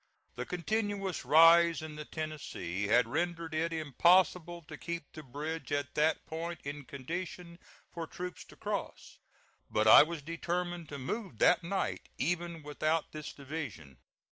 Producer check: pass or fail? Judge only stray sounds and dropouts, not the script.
pass